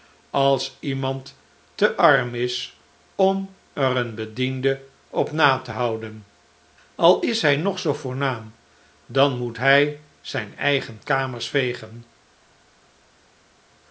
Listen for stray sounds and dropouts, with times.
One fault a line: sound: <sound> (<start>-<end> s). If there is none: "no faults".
no faults